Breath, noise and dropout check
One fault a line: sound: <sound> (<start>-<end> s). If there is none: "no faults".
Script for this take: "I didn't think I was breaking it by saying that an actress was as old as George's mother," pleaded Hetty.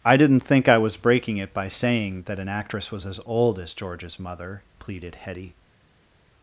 no faults